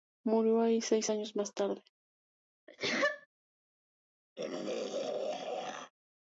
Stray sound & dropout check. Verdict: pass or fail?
fail